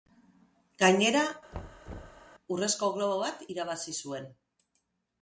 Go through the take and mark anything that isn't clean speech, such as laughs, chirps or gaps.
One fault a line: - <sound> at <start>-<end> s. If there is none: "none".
- thud at 1.5-2.3 s